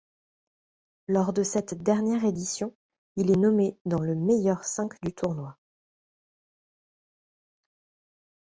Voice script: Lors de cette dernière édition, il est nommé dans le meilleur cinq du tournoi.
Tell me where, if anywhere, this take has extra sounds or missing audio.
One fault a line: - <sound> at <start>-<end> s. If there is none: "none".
none